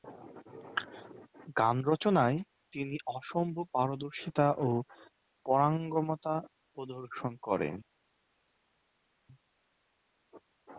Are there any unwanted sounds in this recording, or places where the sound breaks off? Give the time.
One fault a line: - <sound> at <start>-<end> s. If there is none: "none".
none